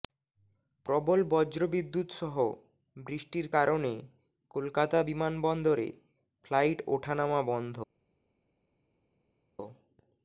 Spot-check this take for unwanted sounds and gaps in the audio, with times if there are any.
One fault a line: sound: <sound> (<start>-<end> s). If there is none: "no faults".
no faults